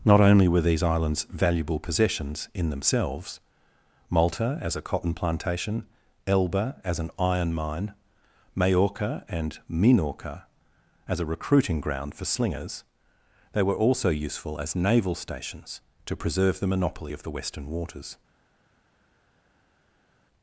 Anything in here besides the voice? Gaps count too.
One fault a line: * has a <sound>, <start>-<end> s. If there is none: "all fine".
all fine